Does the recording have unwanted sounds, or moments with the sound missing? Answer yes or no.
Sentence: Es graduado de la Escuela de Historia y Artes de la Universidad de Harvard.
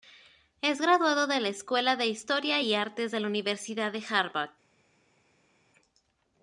no